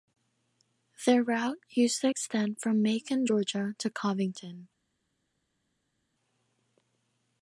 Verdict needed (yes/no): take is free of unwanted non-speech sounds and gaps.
yes